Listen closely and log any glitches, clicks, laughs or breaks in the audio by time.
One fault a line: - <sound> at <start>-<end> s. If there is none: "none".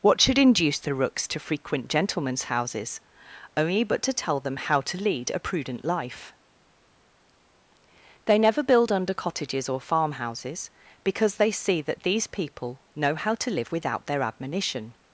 none